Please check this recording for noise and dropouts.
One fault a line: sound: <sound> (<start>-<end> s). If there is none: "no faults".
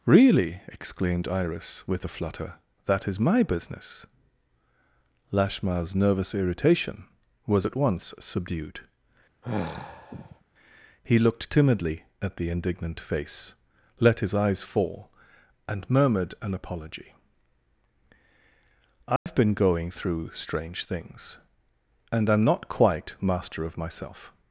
sound: sigh (9.4-10.4 s)
sound: dropout (19.2-19.3 s)